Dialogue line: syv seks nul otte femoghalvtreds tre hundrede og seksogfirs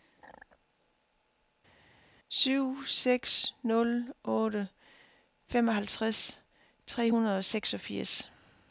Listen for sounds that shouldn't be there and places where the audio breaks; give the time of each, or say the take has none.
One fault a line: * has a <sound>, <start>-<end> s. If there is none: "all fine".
all fine